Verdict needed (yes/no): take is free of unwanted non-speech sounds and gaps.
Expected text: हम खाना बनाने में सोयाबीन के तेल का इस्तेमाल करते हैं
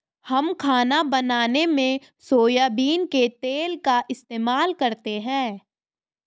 yes